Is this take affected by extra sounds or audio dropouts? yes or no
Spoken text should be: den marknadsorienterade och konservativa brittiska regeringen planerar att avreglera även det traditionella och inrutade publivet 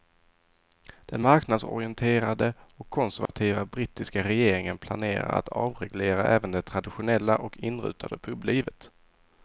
yes